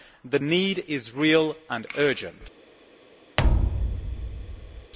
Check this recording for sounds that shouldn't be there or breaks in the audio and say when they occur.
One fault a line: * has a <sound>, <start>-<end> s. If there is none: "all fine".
* has a thud, 3.4-4.9 s